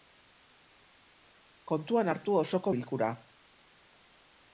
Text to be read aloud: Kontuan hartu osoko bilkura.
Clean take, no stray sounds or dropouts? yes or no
yes